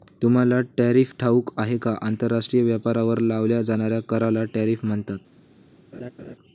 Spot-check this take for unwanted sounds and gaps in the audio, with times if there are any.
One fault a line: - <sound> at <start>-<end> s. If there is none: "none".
- laugh at 5.9-6.4 s